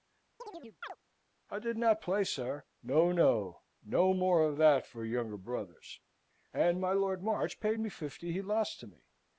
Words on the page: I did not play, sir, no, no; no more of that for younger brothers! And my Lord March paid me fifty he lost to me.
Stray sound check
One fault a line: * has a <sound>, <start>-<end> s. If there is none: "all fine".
* has a chirp, 0.4-1.0 s